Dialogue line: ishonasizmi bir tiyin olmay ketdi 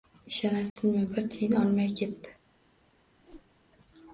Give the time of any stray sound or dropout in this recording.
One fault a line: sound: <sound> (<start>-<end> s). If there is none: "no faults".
sound: dropout (0.7-0.8 s)
sound: whoosh (3.2-3.5 s)